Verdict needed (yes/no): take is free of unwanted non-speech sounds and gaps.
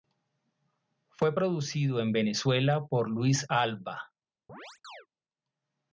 no